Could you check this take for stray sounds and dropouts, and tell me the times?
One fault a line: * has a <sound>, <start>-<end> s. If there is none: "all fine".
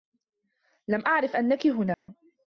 * has a dropout, 1.9-2.1 s